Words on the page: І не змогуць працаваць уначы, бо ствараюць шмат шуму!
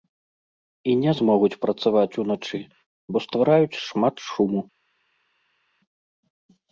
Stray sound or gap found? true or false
false